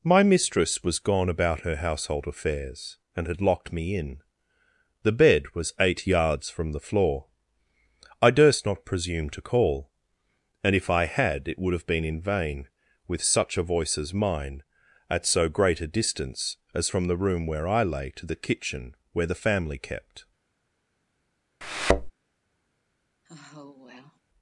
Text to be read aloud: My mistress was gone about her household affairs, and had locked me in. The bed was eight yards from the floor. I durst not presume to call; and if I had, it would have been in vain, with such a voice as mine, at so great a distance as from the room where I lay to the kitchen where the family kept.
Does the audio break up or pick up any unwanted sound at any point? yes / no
yes